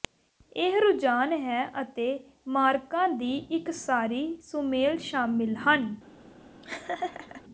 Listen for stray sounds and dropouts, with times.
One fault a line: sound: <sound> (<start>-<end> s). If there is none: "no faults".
sound: laugh (6.6-7.4 s)